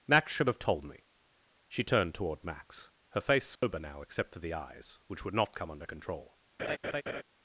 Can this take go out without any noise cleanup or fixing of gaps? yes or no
no